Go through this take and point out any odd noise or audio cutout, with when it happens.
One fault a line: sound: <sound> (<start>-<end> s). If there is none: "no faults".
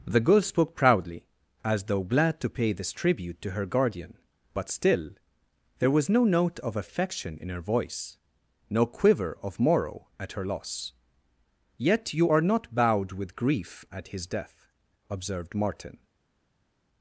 no faults